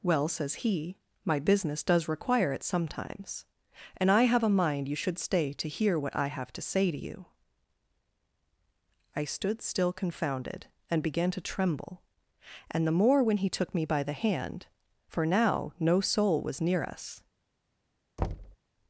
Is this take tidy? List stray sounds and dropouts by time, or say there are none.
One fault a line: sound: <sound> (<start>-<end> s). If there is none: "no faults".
sound: thud (18.2-18.6 s)